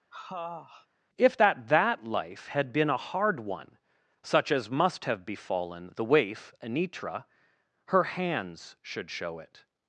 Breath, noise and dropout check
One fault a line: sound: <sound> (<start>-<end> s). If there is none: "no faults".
sound: sniff (0.1-0.9 s)